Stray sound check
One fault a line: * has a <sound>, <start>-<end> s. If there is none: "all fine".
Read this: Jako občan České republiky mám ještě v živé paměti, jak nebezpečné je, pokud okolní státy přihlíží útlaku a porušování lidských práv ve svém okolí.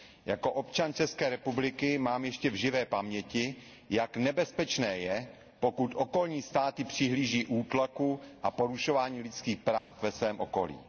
* has a dropout, 9.8-9.9 s